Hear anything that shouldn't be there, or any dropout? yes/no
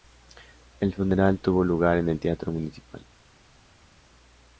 no